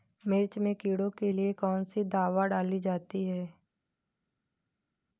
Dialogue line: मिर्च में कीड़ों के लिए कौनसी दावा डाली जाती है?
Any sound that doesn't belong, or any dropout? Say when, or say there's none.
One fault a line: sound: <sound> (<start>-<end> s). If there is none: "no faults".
no faults